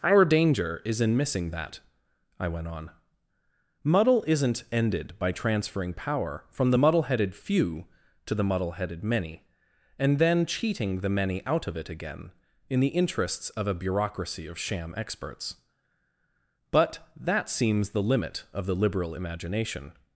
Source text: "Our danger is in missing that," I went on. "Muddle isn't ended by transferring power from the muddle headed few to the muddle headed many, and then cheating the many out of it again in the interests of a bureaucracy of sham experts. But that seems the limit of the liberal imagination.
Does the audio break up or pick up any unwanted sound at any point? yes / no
no